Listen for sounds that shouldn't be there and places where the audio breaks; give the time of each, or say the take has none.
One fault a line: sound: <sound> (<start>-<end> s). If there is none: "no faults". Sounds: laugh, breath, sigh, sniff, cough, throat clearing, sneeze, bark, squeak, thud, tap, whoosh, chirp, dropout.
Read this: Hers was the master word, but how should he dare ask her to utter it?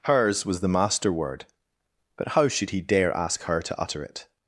no faults